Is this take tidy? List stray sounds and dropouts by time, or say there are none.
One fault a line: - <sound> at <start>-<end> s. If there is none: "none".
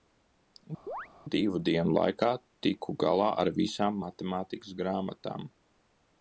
- chirp at 0.9-1.1 s